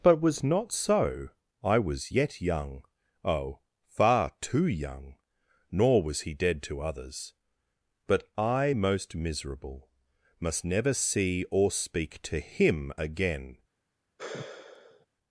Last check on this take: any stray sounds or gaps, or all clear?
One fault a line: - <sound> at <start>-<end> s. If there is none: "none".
- sigh at 14.2-15.1 s